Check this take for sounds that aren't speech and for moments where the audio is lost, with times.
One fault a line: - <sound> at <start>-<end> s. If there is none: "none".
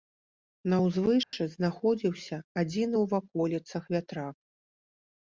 - dropout at 1.2-1.3 s